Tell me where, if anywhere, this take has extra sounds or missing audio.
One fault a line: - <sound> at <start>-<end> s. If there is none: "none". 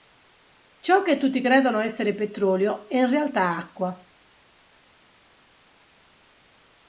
none